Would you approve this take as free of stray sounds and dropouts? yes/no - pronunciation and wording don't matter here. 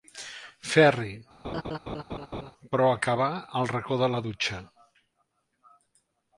no